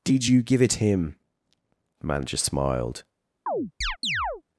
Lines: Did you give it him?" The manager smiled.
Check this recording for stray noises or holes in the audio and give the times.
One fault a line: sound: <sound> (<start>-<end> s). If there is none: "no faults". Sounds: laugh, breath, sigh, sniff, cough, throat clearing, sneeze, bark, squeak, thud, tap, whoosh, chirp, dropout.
sound: chirp (3.5-4.4 s)